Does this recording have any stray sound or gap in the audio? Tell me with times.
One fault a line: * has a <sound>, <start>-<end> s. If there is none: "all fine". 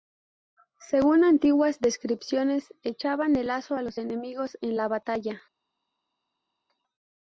all fine